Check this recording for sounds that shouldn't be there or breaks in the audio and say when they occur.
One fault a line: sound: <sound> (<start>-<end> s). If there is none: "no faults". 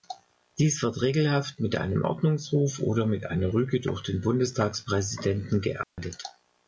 sound: dropout (5.8-6.0 s)